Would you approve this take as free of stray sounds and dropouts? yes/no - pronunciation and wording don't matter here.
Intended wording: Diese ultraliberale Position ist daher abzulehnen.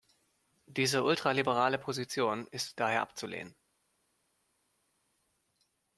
yes